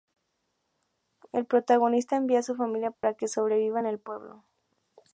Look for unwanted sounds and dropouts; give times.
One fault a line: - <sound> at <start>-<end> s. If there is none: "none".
- dropout at 2.9-3.0 s